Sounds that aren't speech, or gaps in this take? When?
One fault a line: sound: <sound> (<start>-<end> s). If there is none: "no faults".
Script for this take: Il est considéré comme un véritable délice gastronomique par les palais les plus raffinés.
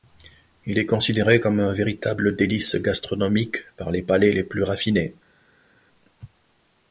no faults